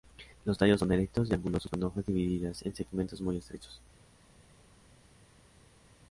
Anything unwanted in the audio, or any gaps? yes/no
no